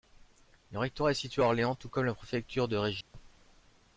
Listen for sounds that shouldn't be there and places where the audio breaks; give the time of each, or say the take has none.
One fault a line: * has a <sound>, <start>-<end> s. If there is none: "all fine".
* has a dropout, 3.0-3.1 s